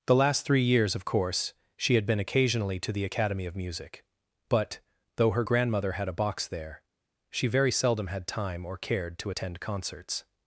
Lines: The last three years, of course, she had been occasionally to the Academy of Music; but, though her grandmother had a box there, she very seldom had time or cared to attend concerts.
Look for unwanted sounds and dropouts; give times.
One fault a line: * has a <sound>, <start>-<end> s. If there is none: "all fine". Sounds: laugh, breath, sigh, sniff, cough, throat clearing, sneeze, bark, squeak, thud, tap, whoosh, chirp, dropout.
all fine